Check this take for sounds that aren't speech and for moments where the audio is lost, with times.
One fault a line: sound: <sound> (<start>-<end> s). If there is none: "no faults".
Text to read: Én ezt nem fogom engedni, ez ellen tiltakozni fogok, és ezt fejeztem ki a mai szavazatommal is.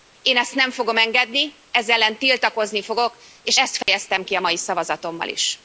sound: dropout (3.8-3.9 s)